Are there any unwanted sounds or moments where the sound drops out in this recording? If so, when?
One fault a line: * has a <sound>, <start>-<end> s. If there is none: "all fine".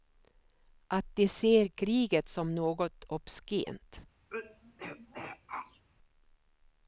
* has a throat clearing, 4.3-5.9 s